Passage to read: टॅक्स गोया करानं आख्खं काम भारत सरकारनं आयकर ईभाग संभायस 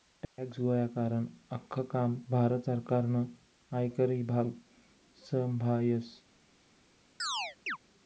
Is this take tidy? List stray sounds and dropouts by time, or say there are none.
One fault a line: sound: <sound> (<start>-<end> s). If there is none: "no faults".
sound: chirp (7.2-7.8 s)